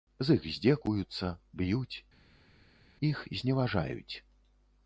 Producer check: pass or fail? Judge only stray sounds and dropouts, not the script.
pass